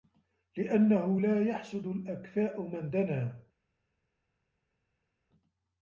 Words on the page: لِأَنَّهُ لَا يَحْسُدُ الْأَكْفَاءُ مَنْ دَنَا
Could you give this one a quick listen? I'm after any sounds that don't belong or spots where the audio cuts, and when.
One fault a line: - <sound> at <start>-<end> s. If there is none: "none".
none